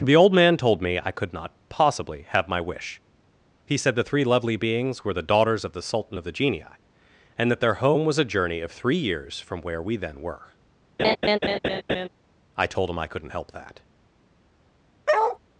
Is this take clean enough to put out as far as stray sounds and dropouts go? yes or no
no